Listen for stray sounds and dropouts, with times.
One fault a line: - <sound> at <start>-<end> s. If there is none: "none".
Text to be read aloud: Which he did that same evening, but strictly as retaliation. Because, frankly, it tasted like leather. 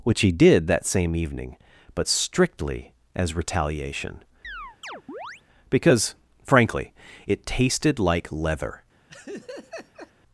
- chirp at 4.4-5.4 s
- laugh at 9.1-10.1 s